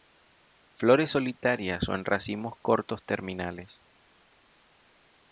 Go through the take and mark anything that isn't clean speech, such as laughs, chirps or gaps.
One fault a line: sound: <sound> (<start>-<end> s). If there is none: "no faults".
no faults